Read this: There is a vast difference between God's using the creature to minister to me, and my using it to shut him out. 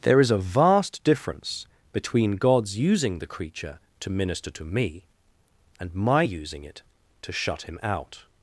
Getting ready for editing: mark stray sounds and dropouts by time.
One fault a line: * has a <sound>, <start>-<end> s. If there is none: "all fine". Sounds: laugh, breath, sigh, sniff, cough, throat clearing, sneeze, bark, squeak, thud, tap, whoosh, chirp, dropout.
all fine